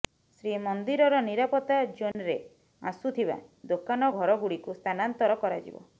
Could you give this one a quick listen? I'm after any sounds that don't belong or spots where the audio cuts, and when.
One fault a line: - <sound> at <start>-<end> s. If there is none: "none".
- dropout at 2.1-2.1 s